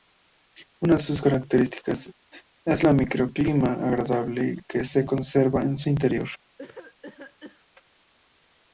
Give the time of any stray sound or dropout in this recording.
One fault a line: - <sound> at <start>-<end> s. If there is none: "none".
- cough at 6.6-7.7 s